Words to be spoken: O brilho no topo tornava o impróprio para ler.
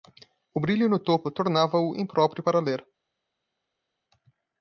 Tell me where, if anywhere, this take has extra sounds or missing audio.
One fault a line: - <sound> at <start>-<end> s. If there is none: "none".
none